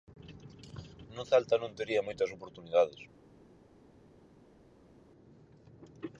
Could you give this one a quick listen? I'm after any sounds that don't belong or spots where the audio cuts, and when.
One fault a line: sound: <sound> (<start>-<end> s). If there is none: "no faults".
no faults